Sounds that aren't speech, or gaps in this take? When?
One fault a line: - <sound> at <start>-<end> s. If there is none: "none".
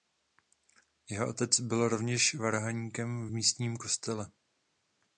none